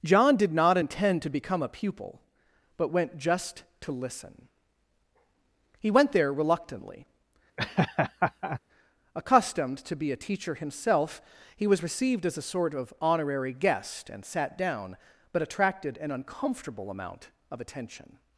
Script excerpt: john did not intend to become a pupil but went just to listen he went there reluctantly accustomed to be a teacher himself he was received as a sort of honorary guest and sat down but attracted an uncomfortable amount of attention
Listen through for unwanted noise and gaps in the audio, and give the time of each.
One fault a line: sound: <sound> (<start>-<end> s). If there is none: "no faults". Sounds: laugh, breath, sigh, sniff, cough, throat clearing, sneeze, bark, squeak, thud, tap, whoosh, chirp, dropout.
sound: laugh (7.6-8.6 s)